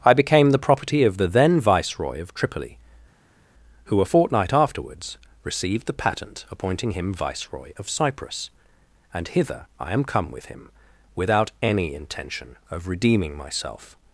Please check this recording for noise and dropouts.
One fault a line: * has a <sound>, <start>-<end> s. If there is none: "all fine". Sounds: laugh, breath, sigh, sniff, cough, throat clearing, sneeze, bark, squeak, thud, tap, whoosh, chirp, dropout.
all fine